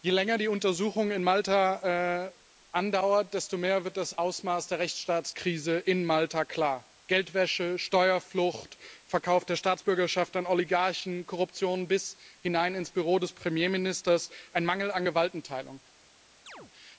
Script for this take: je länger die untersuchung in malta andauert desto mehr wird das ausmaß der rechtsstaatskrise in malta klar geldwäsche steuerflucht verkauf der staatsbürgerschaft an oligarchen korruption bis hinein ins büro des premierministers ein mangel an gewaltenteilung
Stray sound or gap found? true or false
true